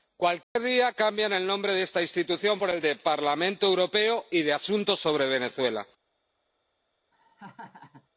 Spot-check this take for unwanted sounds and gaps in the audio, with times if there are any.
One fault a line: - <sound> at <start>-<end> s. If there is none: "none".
- dropout at 0.4-0.6 s
- laugh at 7.1-8.1 s